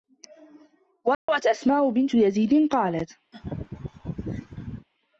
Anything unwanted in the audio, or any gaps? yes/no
yes